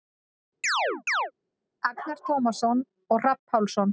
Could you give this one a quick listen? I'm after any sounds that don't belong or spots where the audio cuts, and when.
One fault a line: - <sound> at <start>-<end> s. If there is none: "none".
- chirp at 0.6-1.3 s